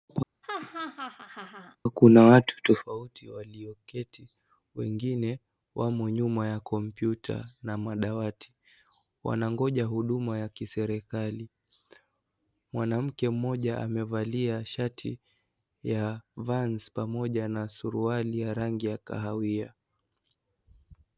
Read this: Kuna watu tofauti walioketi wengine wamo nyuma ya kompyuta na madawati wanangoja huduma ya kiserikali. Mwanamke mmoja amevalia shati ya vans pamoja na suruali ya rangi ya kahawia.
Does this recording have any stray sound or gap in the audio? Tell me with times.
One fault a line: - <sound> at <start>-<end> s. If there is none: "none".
- laugh at 0.4-1.8 s